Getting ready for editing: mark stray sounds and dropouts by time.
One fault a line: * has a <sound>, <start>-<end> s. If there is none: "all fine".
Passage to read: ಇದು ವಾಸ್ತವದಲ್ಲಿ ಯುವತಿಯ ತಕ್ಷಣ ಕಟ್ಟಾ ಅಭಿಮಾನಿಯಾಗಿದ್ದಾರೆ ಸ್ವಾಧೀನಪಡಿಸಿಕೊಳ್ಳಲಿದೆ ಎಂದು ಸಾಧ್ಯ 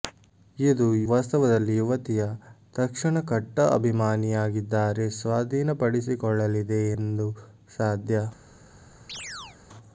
* has a chirp, 9.1-9.6 s